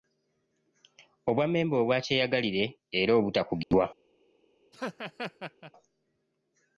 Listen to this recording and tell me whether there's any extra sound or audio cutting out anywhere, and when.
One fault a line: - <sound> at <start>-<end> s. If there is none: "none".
- dropout at 3.6-3.7 s
- laugh at 4.7-5.7 s